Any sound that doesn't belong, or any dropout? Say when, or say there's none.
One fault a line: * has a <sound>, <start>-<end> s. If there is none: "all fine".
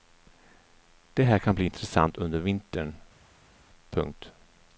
all fine